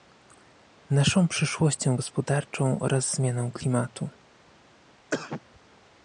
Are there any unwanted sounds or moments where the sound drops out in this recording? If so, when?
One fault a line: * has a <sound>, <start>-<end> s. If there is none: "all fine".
* has a cough, 5.1-5.4 s